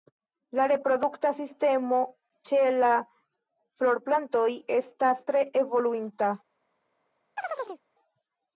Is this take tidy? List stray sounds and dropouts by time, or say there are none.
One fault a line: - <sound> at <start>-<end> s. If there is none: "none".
- chirp at 7.4-7.8 s